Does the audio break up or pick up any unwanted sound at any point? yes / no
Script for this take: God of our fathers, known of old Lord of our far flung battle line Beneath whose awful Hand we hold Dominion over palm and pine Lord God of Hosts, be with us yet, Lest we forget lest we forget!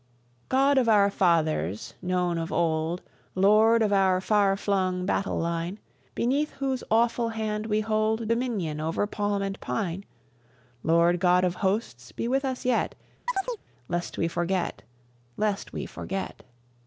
yes